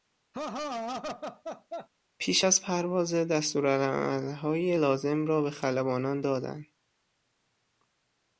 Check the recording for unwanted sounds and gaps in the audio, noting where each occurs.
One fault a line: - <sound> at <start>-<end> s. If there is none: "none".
- laugh at 0.3-1.9 s